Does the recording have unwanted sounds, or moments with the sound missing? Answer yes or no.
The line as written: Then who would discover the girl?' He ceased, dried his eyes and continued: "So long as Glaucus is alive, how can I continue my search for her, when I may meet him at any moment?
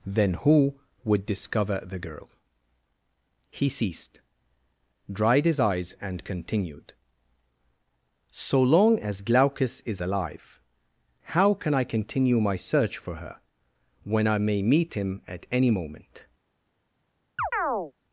yes